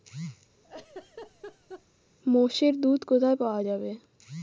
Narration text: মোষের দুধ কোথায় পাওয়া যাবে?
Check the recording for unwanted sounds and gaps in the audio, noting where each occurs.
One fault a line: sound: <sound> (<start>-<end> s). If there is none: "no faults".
sound: laugh (0.6-1.9 s)